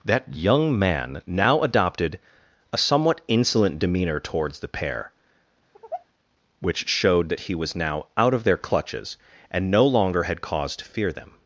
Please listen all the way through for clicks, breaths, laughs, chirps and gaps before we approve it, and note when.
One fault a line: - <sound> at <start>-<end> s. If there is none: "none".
- sigh at 5.7-6.0 s